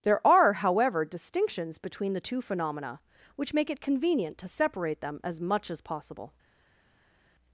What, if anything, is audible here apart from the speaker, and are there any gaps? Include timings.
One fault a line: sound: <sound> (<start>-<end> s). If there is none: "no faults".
no faults